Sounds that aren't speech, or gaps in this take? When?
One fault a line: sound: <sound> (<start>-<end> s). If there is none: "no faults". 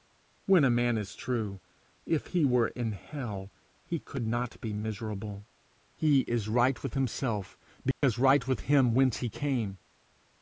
sound: dropout (7.9-8.0 s)